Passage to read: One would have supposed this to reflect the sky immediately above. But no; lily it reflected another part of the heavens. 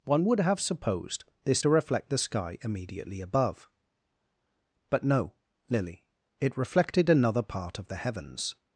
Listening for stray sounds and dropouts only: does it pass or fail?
pass